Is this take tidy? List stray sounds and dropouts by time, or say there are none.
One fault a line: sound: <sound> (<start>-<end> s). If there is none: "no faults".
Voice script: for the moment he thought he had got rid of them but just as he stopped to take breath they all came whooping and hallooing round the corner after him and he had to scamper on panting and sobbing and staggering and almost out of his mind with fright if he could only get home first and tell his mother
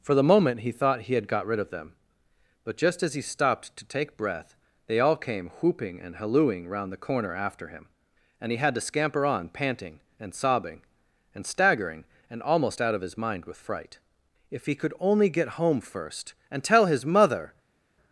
no faults